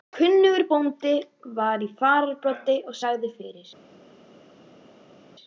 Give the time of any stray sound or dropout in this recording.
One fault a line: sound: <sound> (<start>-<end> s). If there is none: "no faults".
no faults